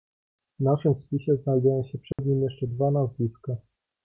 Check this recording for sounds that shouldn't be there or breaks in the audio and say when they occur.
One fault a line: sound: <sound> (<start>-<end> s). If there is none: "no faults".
sound: dropout (2.1-2.2 s)